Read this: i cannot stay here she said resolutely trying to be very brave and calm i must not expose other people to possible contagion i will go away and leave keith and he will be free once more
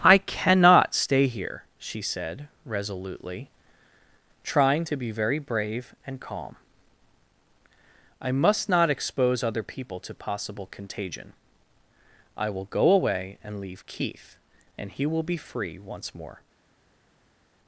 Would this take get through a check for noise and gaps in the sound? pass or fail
pass